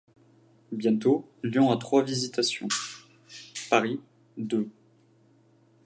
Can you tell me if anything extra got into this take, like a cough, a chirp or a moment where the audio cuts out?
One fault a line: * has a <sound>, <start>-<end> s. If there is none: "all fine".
all fine